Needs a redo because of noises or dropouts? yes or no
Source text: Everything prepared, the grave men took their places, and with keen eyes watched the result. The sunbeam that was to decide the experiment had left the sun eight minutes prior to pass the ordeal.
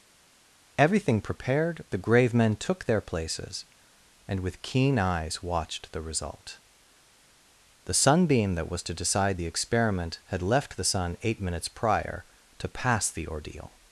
no